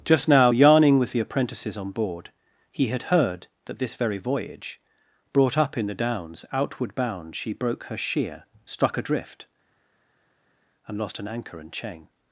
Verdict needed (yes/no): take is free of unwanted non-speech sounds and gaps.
yes